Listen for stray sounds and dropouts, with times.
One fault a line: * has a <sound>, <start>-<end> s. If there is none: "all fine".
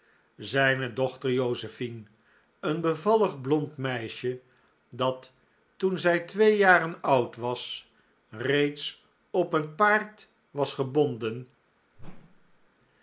* has a whoosh, 12.0-12.7 s